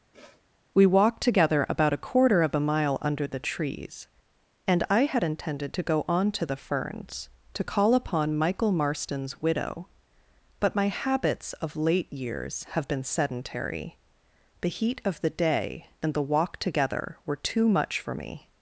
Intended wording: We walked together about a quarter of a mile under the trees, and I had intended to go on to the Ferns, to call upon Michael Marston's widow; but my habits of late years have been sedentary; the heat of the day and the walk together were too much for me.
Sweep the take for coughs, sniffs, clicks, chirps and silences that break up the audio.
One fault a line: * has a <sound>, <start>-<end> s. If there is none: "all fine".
* has a sniff, 0.1-0.4 s